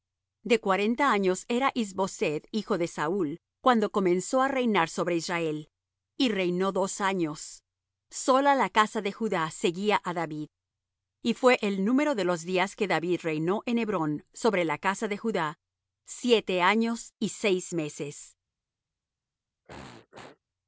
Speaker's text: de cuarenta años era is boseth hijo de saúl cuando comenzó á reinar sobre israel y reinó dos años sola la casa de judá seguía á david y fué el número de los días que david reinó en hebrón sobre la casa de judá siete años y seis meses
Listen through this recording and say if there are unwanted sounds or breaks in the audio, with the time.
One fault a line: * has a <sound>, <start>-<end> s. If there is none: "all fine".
* has a throat clearing, 19.7-20.4 s